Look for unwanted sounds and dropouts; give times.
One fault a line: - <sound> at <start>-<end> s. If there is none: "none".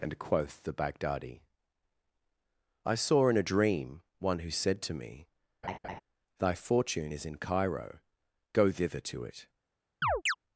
- laugh at 5.6-6.0 s
- chirp at 10.0-10.3 s